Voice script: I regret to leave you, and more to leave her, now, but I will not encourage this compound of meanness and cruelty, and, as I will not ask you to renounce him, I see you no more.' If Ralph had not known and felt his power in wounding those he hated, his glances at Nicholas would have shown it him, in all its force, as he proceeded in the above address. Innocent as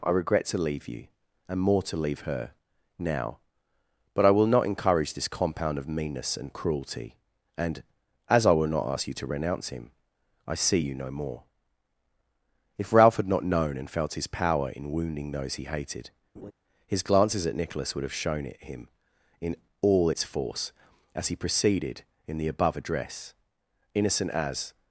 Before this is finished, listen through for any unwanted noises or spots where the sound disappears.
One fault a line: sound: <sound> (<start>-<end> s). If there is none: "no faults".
sound: laugh (16.3-16.5 s)